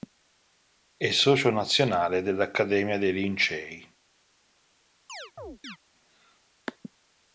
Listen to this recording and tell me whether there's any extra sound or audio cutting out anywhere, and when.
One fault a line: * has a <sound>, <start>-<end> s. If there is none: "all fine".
* has a chirp, 5.1-5.8 s